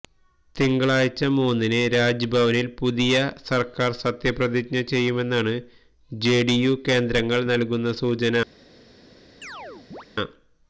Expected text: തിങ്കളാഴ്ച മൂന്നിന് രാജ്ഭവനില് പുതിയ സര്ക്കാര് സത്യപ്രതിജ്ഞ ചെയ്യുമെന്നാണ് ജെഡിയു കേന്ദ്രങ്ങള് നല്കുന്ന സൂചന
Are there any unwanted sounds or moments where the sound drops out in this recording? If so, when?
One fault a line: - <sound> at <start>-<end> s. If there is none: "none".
- chirp at 9.4-10.1 s